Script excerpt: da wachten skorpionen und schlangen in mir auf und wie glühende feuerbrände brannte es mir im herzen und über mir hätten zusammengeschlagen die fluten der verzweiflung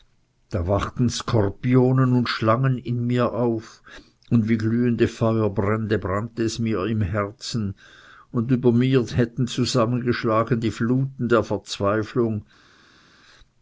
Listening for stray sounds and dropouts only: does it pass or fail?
pass